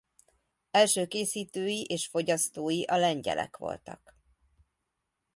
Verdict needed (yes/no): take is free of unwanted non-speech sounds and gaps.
yes